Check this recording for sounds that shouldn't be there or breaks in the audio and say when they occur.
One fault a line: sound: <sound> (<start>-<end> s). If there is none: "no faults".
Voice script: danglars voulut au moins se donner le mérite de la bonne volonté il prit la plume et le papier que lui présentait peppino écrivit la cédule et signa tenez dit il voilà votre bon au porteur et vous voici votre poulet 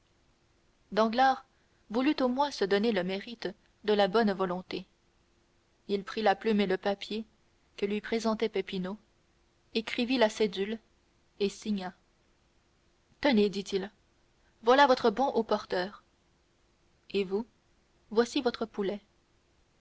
no faults